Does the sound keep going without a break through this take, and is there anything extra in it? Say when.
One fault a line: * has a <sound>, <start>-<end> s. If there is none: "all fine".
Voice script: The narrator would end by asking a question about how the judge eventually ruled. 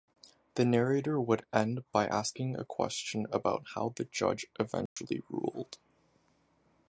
* has a dropout, 4.9-5.0 s